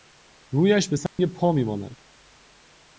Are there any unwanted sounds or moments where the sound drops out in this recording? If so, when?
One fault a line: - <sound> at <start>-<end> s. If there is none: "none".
- dropout at 1.1-1.2 s